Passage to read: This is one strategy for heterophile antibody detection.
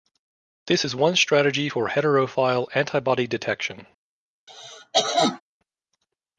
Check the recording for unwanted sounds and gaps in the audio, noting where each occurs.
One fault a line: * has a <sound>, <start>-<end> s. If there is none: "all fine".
* has a cough, 4.5-5.4 s